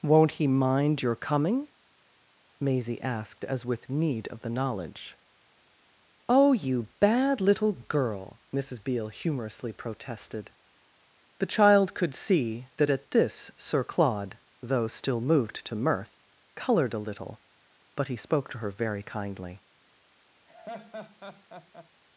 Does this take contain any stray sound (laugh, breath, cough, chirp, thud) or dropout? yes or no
yes